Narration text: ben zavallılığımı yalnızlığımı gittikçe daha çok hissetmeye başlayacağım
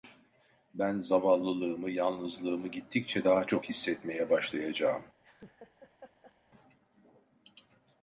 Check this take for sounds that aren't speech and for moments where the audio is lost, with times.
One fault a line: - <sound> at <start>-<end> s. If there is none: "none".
- laugh at 5.2-6.4 s